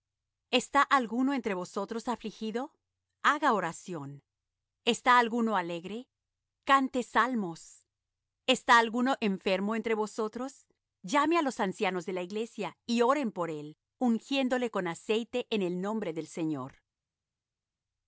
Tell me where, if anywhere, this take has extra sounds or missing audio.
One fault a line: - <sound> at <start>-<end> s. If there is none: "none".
none